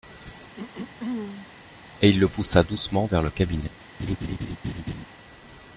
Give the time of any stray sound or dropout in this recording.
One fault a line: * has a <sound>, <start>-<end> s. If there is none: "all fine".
* has a throat clearing, 0.6-1.5 s
* has a laugh, 4.0-5.1 s